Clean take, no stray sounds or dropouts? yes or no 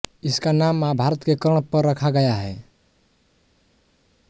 yes